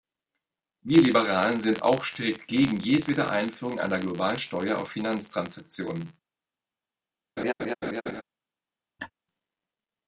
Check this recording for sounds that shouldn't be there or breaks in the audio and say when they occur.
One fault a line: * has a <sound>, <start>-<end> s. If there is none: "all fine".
* has a laugh, 7.4-8.2 s
* has a laugh, 9.0-9.1 s